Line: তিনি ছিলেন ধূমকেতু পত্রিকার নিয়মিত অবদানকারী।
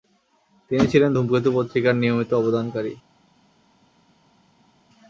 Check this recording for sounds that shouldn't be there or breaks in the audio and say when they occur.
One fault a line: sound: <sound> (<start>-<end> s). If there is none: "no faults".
no faults